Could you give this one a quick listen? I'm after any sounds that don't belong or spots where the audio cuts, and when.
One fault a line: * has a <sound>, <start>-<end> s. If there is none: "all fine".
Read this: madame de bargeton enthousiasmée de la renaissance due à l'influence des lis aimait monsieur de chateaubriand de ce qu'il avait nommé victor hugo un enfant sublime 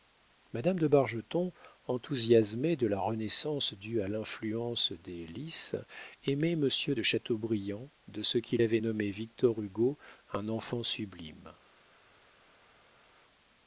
all fine